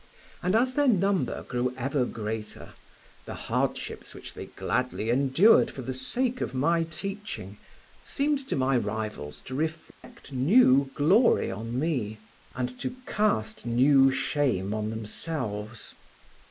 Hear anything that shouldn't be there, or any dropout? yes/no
yes